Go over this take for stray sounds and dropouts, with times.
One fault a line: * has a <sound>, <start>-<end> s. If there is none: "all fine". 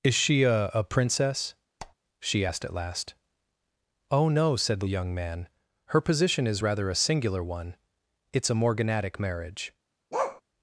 * has a squeak, 1.8-1.9 s
* has a bark, 10.1-10.4 s